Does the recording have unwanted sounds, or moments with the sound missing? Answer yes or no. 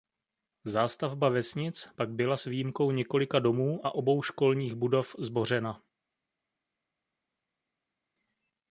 no